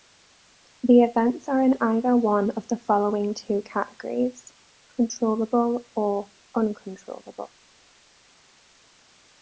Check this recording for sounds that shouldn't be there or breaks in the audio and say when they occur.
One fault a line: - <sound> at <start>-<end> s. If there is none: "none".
none